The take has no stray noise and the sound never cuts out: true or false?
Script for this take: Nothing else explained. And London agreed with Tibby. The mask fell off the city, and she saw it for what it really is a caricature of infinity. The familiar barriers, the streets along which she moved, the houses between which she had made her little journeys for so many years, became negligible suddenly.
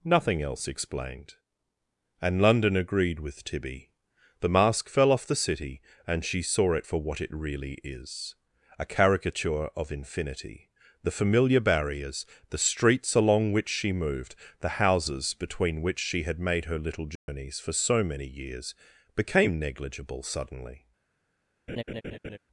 false